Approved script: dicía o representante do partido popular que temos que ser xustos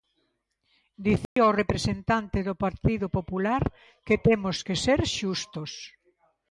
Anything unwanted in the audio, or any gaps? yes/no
yes